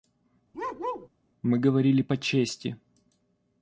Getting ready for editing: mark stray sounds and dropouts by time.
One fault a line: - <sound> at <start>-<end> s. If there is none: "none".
- bark at 0.5-1.1 s